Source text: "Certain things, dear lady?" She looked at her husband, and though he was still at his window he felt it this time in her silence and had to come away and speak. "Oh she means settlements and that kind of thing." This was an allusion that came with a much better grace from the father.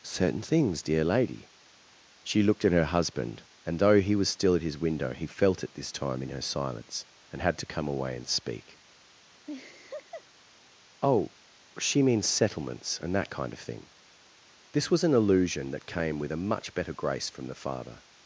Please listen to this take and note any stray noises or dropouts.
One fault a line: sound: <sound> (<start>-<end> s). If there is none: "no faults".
sound: laugh (9.5-10.2 s)